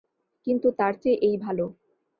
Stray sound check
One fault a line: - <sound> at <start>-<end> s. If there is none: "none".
none